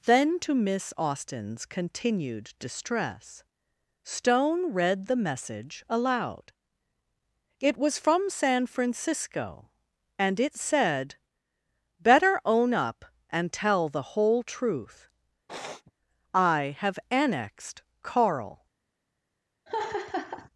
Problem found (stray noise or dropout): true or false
true